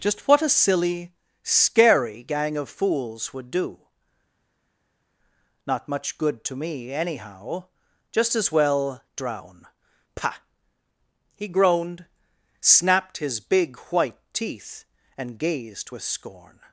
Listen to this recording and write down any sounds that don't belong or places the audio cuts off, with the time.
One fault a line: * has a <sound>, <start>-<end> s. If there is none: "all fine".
all fine